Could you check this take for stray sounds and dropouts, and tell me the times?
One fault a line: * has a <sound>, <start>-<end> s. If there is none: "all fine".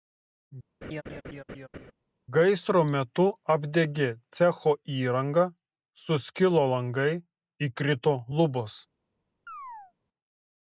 * has a laugh, 0.8-1.9 s
* has a chirp, 9.5-9.9 s